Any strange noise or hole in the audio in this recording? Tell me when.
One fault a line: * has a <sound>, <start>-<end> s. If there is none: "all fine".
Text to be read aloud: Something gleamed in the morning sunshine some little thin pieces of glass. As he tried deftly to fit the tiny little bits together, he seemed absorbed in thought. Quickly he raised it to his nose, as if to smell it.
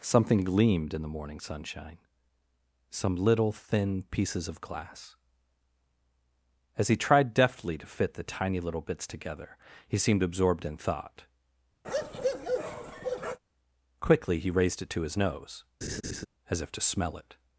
* has a bark, 11.8-13.4 s
* has a laugh, 15.8-16.3 s